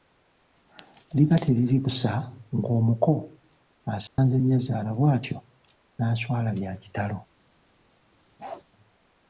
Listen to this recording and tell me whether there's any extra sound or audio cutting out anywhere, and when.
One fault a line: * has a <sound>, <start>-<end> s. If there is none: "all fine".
* has a dropout, 4.1-4.2 s
* has a bark, 8.4-8.6 s